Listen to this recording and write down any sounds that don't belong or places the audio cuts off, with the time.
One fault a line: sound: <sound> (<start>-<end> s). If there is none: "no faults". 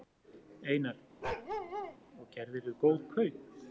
sound: bark (1.2-2.0 s)